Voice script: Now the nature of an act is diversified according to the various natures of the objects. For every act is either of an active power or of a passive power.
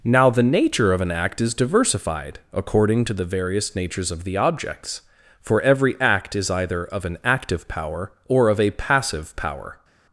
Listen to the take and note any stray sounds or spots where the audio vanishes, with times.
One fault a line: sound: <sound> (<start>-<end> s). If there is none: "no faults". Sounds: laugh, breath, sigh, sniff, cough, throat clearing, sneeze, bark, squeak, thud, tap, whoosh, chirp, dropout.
no faults